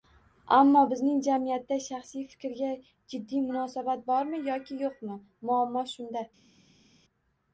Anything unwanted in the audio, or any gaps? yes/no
no